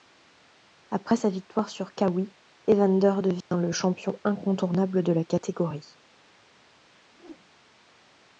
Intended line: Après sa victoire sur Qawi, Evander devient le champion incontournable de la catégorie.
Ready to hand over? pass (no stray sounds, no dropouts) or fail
fail